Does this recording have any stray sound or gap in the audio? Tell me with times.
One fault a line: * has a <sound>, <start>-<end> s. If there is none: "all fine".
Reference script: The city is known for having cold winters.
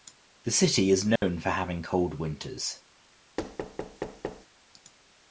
* has a dropout, 1.2-1.2 s
* has a thud, 3.4-4.5 s